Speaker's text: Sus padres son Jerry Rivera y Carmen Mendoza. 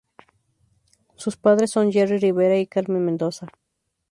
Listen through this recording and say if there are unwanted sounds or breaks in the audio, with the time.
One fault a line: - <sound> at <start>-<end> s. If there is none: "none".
none